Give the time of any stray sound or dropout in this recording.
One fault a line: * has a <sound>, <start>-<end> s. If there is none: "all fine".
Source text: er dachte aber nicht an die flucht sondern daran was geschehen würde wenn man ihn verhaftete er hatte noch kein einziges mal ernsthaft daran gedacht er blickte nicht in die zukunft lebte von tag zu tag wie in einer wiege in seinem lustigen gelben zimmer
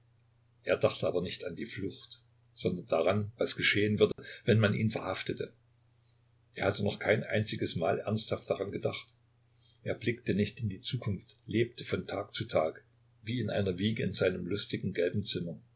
* has a dropout, 4.1-4.2 s